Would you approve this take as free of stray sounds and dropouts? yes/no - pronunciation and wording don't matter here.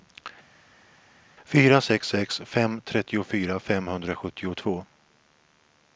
yes